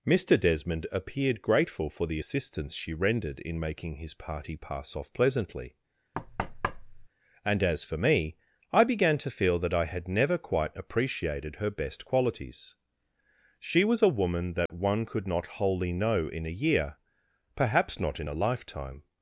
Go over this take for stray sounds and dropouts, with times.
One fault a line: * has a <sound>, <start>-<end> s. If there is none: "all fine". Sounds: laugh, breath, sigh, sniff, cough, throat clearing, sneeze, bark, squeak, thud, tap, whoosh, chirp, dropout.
* has a thud, 6.1-7.1 s
* has a dropout, 14.7-14.7 s